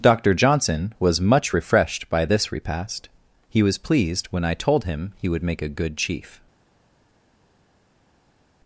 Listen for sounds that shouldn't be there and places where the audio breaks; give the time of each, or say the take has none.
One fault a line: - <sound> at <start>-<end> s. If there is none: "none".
none